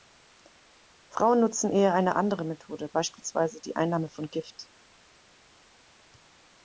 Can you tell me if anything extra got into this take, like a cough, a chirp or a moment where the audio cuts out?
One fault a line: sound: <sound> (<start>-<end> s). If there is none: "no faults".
no faults